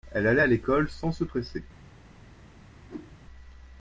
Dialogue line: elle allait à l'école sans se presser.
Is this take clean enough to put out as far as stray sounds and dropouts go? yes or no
no